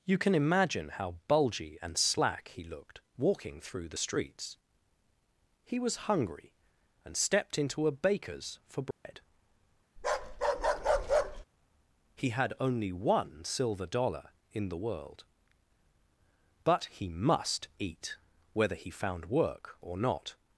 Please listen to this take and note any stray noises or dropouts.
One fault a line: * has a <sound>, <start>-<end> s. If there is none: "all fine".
* has a dropout, 8.9-9.0 s
* has a bark, 10.0-11.5 s